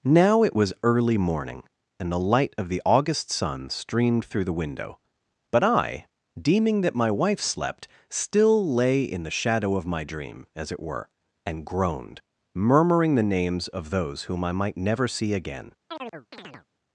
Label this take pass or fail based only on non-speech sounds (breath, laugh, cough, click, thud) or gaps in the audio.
fail